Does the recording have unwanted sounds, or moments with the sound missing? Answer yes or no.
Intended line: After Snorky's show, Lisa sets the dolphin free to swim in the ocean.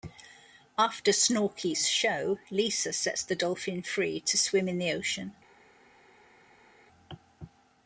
no